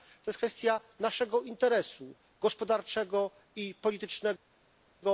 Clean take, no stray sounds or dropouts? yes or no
yes